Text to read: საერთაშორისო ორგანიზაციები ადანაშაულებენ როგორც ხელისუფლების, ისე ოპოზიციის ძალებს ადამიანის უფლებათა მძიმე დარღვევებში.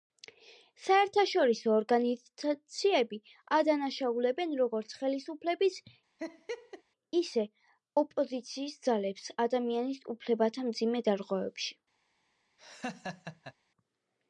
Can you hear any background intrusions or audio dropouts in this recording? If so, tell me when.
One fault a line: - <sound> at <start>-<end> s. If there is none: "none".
- laugh at 6.2-6.8 s
- laugh at 12.6-13.5 s